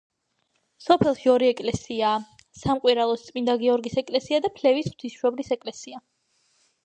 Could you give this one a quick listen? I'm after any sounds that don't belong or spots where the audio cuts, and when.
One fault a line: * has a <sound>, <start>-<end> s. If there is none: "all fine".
all fine